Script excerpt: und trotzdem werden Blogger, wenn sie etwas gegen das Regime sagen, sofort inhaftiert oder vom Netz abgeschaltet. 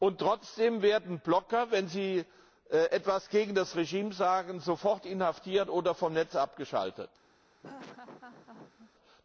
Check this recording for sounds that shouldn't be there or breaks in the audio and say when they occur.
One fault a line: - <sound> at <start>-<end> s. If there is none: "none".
- laugh at 7.6-8.9 s